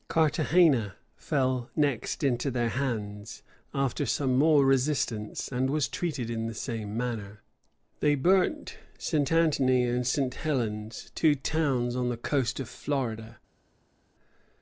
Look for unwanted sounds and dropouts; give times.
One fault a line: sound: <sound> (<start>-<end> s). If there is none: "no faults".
no faults